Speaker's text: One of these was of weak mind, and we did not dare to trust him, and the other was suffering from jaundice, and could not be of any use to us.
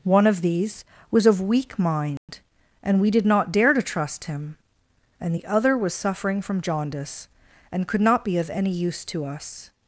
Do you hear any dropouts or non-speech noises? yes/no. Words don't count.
yes